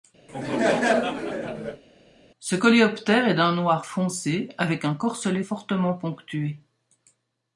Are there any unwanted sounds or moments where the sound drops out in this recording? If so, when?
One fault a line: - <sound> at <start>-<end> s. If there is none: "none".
- laugh at 0.3-1.8 s